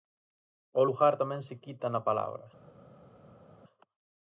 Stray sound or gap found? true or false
false